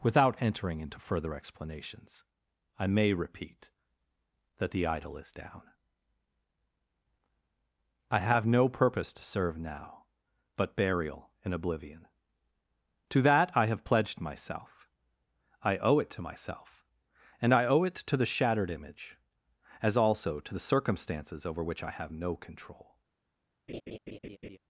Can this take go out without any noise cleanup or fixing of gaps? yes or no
no